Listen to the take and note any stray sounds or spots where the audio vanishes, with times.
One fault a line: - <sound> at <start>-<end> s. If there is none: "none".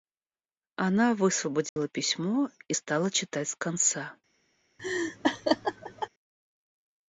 - dropout at 1.7-1.8 s
- laugh at 4.8-6.1 s